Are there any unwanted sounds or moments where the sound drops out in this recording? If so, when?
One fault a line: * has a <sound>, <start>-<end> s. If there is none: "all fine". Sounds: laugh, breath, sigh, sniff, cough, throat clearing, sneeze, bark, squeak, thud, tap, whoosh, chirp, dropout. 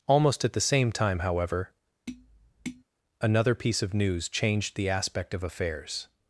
* has a tap, 2.1-2.8 s